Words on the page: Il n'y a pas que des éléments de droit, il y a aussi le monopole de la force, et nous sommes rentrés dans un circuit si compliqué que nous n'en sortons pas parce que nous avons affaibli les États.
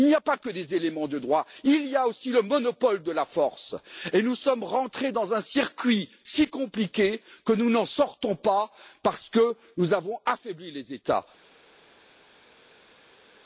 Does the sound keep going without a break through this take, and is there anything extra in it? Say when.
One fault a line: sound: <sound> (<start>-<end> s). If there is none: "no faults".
no faults